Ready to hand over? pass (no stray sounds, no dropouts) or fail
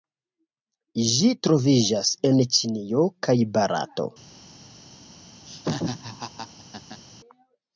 fail